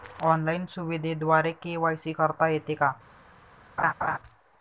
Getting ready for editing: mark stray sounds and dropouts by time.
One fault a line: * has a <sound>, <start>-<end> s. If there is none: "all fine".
* has a laugh, 3.8-4.2 s